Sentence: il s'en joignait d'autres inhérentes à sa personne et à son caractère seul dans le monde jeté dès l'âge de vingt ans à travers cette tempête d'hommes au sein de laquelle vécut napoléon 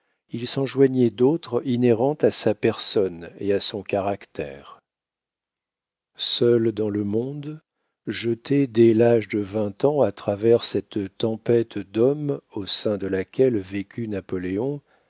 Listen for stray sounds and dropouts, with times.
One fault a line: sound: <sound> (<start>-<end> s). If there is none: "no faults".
no faults